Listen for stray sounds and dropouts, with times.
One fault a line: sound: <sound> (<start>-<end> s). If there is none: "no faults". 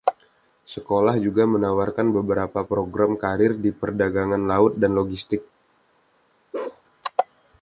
sound: bark (6.5-6.8 s)